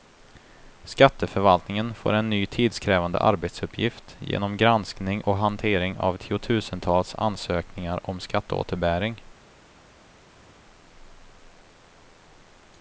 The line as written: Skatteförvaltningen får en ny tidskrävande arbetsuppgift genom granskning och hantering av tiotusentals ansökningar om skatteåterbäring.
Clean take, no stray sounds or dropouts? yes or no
yes